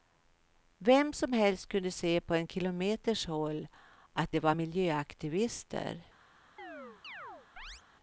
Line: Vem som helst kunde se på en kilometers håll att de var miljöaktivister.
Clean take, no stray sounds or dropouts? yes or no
no